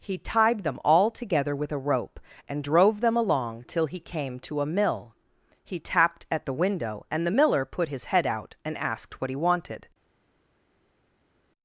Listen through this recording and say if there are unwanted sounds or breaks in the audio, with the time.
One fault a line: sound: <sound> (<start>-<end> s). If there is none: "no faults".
no faults